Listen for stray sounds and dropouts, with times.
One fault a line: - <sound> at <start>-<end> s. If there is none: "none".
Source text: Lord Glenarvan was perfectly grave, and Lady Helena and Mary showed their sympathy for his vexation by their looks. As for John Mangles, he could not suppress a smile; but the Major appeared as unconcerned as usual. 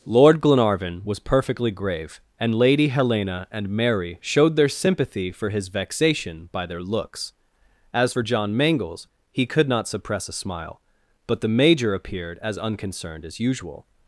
none